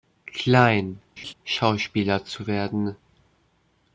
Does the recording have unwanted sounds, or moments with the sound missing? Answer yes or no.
yes